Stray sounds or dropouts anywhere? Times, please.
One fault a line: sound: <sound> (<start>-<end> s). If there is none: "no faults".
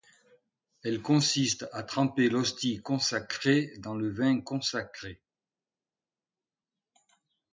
no faults